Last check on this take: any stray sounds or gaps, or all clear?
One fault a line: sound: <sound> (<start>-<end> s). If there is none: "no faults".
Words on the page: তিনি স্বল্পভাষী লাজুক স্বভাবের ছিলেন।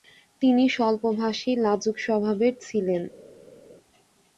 no faults